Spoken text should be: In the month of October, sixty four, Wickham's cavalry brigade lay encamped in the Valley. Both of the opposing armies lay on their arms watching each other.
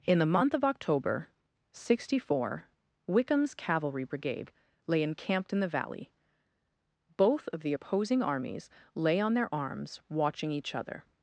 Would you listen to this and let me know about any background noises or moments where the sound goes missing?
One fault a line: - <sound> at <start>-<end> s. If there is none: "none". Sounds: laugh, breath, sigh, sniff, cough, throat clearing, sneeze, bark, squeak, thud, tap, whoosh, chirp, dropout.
none